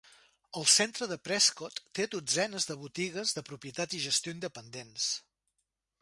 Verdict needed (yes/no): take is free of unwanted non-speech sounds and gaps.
yes